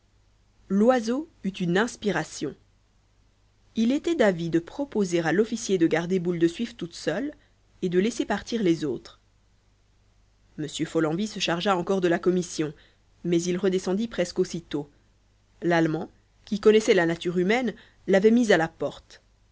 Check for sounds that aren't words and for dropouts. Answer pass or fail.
pass